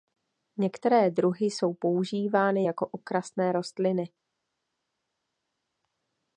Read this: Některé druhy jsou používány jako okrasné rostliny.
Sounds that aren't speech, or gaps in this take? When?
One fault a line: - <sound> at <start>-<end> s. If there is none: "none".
none